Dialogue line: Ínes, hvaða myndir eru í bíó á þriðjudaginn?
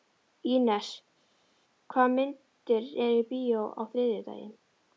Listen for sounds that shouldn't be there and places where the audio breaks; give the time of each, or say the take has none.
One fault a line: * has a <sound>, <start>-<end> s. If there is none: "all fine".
all fine